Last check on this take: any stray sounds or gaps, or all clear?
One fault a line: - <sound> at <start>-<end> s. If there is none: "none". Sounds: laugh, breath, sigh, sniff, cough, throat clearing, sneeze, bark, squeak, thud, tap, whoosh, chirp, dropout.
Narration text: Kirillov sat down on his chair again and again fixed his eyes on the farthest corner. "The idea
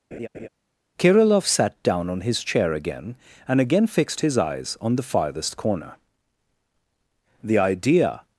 - laugh at 0.1-0.5 s